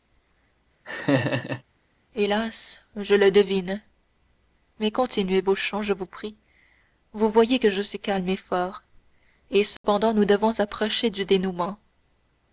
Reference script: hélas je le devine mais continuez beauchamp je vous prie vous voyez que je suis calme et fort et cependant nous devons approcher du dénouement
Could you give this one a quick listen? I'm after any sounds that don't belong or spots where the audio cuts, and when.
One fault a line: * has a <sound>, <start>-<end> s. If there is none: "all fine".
* has a laugh, 0.8-1.6 s
* has a dropout, 9.8-9.8 s